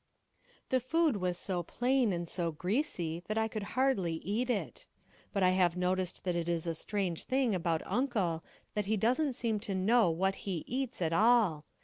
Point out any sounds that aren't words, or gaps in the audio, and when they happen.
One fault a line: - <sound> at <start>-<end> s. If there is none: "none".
none